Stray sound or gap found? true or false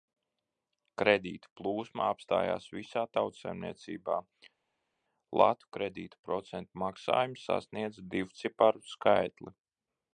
false